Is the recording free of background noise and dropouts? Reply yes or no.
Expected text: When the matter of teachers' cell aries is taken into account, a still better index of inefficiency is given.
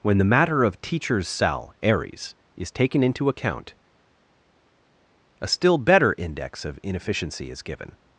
yes